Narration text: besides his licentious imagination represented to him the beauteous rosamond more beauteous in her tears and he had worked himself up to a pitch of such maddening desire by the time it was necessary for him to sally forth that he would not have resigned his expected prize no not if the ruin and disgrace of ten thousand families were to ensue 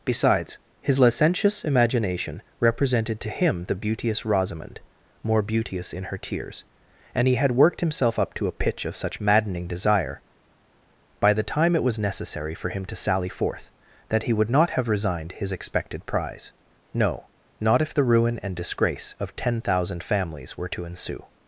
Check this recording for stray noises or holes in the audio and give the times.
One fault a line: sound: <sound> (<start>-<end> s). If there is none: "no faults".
no faults